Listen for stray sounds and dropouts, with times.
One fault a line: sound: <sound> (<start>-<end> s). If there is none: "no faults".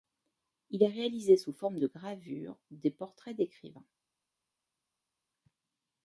no faults